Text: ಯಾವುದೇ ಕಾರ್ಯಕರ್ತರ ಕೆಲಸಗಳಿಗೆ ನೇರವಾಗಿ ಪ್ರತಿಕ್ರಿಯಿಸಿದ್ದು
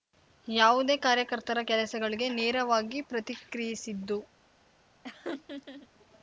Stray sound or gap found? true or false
true